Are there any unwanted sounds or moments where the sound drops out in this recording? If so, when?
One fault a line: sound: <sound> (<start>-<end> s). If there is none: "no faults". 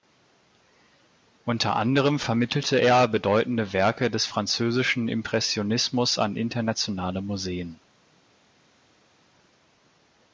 no faults